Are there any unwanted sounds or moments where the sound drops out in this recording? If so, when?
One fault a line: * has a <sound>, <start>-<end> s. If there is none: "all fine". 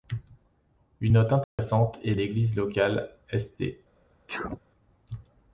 * has a dropout, 1.4-1.6 s
* has a sneeze, 4.3-4.6 s